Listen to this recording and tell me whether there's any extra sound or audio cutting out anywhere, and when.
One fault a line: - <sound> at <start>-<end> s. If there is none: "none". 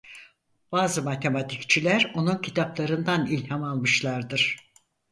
none